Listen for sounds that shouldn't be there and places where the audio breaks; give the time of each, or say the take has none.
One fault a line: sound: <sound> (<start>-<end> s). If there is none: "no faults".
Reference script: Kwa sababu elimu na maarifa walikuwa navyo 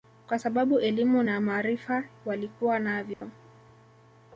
sound: dropout (3.1-3.2 s)